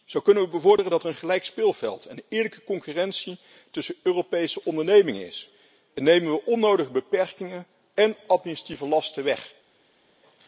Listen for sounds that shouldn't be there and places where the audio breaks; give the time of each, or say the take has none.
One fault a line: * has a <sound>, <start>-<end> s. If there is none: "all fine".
all fine